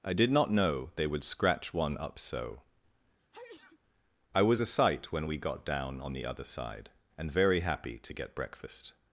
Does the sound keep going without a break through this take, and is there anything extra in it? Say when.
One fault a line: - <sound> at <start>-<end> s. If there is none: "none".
- sneeze at 3.2-3.8 s